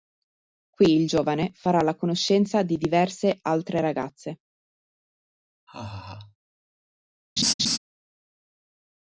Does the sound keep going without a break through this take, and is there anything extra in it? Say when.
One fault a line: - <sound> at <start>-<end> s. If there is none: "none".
- laugh at 5.7-6.4 s
- laugh at 7.4-7.8 s